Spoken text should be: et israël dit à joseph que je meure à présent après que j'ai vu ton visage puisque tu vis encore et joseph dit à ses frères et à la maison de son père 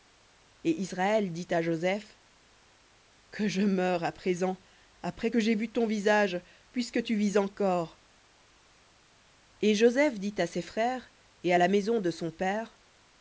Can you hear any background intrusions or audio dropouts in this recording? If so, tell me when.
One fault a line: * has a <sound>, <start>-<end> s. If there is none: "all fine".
all fine